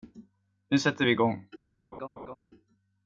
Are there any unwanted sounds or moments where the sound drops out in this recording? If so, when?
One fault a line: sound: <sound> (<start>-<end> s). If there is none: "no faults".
sound: laugh (1.9-2.4 s)